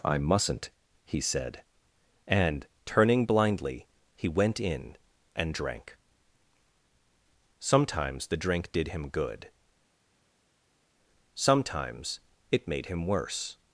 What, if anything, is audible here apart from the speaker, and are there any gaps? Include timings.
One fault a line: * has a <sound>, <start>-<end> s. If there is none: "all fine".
all fine